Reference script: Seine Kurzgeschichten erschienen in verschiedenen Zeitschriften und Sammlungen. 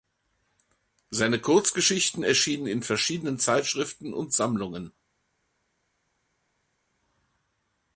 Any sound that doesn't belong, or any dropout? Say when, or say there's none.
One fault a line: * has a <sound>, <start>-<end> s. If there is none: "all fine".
all fine